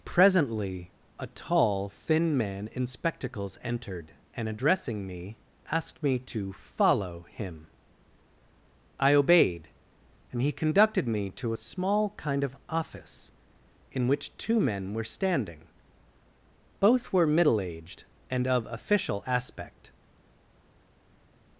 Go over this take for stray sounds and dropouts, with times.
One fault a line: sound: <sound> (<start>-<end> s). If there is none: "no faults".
no faults